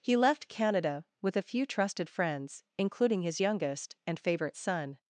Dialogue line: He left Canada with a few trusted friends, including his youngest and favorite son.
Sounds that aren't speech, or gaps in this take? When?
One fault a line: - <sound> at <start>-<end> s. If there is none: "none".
none